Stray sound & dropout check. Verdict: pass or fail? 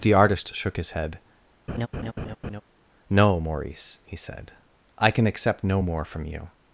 fail